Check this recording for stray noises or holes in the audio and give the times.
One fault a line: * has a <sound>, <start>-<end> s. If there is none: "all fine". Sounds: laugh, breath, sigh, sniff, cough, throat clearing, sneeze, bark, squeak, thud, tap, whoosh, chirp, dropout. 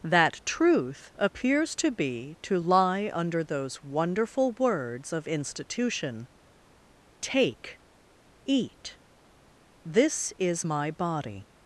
all fine